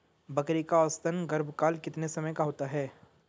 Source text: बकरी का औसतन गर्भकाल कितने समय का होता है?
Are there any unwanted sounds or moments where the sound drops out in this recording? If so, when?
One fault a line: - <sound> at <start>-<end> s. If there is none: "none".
none